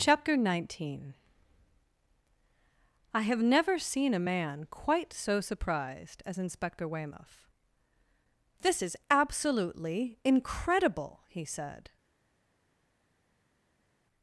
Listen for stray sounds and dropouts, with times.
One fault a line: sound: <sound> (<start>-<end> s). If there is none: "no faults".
no faults